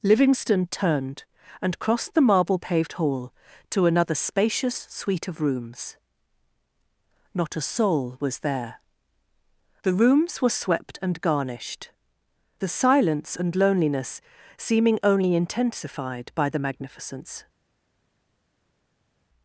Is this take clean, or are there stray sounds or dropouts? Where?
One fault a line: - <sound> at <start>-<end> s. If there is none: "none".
none